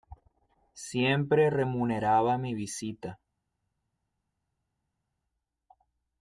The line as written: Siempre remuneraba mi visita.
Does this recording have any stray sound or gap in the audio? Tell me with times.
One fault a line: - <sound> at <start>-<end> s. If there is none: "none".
none